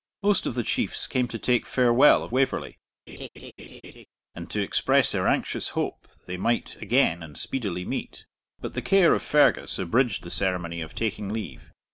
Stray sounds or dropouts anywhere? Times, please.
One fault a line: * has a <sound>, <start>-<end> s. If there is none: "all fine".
* has a laugh, 3.1-4.1 s